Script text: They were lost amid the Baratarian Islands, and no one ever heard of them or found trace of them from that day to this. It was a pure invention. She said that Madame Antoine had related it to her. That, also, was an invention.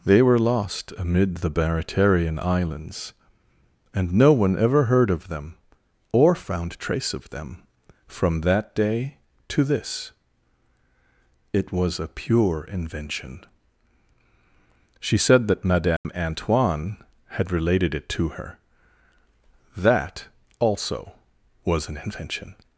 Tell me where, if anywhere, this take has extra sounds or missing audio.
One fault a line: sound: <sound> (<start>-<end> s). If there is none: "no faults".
sound: dropout (16.0-16.0 s)